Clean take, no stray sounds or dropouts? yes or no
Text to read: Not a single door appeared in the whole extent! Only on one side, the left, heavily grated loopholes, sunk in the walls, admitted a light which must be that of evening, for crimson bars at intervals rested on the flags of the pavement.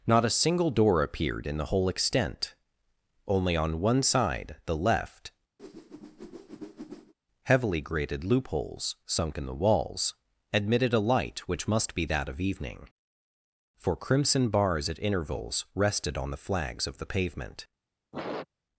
no